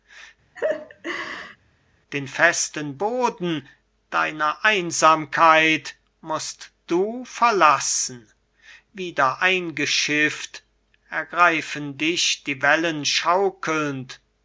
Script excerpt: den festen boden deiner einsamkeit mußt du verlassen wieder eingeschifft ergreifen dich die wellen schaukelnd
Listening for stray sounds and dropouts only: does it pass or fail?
fail